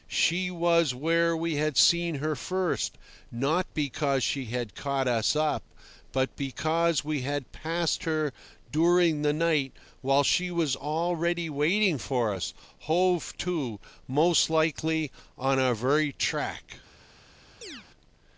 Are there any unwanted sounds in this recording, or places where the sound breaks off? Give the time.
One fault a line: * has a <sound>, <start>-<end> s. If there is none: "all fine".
* has a chirp, 17.6-17.9 s